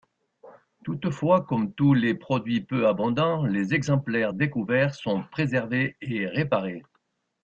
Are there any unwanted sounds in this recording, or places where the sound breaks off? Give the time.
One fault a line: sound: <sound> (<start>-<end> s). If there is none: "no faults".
no faults